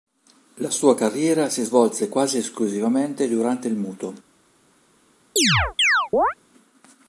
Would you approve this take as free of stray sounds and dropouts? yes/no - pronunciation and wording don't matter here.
no